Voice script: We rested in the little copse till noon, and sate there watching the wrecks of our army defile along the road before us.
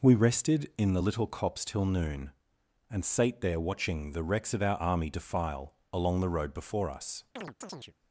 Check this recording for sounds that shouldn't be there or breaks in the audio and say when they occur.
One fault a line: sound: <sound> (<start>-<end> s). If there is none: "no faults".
sound: chirp (7.4-7.9 s)